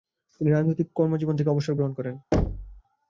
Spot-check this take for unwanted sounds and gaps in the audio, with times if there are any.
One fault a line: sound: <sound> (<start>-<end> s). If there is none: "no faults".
sound: thud (2.3-2.8 s)